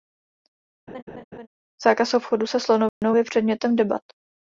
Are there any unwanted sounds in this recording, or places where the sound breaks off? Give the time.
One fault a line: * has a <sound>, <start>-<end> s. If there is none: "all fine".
* has a laugh, 0.9-1.5 s
* has a dropout, 2.9-3.0 s